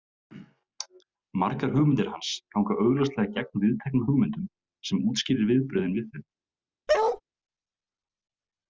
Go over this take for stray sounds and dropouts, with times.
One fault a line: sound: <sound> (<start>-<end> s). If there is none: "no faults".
sound: bark (6.9-7.2 s)